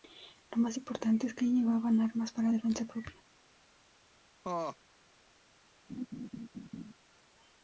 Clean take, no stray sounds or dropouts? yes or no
no